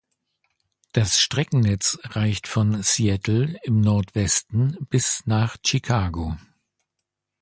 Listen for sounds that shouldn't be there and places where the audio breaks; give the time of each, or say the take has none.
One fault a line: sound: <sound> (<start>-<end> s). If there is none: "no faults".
no faults